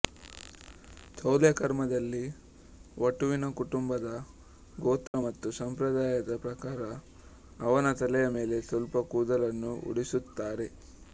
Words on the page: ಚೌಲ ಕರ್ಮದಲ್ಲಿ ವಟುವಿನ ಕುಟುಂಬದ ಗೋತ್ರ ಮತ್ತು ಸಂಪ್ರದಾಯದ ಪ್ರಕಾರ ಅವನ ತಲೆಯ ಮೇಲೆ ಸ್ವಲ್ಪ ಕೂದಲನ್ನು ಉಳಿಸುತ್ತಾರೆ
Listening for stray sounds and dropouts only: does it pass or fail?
fail